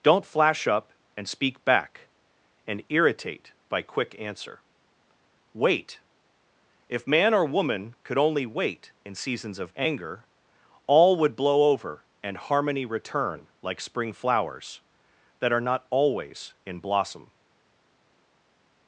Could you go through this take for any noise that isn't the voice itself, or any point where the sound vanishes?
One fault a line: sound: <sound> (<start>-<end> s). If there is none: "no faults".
no faults